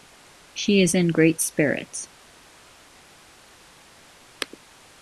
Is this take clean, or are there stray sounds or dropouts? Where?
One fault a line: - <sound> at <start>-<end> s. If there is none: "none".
none